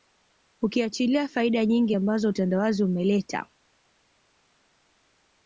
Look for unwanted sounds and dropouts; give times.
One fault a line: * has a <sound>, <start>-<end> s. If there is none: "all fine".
all fine